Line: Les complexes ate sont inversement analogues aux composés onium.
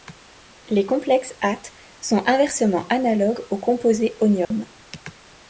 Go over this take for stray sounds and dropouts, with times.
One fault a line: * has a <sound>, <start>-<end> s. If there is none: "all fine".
* has a dropout, 4.4-4.5 s